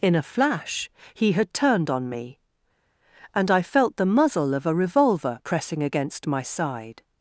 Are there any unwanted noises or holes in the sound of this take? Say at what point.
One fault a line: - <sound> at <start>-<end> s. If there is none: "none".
none